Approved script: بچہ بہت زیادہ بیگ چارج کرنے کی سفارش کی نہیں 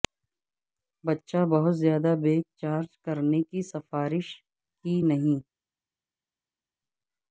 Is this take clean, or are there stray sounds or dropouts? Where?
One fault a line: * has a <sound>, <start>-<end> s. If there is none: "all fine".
all fine